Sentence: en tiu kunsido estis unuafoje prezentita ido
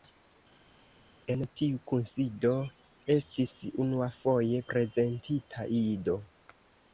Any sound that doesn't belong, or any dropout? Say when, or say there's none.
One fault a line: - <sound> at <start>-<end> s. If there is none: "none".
none